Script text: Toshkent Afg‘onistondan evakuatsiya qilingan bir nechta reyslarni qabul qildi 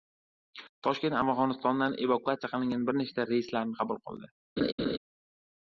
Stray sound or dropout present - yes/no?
yes